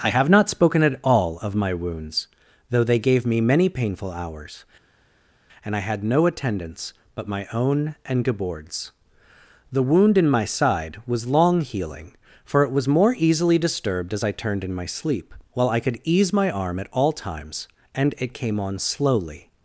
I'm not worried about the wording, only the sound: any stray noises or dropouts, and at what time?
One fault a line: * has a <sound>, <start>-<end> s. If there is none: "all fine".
all fine